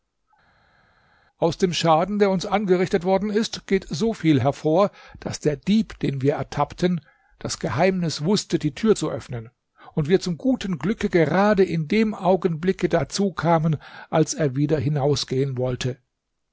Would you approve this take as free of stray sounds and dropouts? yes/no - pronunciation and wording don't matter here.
yes